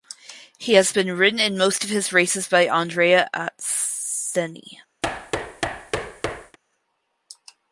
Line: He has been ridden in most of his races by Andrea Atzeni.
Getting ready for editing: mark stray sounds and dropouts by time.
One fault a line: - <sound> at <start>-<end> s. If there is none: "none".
- thud at 5.0-6.6 s